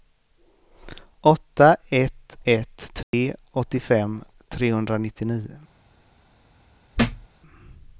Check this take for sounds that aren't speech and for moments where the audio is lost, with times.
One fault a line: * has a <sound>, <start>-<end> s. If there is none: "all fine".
* has a dropout, 3.0-3.1 s
* has a thud, 6.9-7.3 s